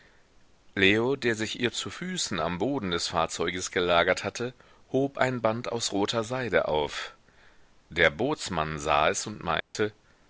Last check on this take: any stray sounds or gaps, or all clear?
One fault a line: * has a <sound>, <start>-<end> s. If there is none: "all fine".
* has a dropout, 9.6-9.7 s